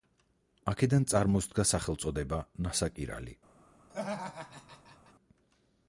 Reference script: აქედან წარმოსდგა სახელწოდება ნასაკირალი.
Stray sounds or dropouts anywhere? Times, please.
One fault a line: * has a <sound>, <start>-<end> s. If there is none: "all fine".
* has a laugh, 3.9-5.1 s